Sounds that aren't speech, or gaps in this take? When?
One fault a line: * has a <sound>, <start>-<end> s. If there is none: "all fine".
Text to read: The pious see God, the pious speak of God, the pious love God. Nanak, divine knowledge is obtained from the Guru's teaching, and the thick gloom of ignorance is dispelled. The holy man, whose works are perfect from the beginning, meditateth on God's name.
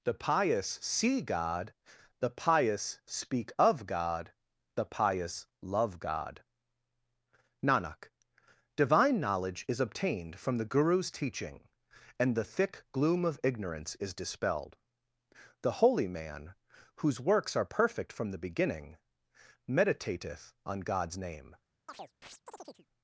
* has a chirp, 21.9-22.9 s